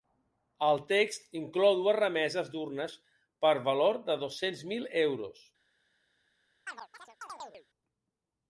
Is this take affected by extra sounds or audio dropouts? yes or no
yes